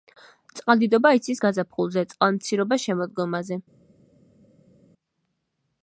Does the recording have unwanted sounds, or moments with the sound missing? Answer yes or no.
no